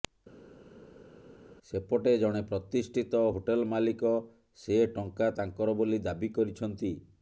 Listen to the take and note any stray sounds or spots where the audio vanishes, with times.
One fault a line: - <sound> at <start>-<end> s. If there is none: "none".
none